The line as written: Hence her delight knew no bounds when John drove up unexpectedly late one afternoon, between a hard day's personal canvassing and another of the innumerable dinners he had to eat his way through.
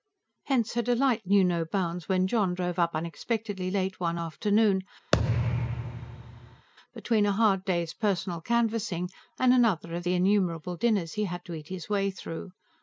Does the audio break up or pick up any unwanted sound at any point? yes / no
yes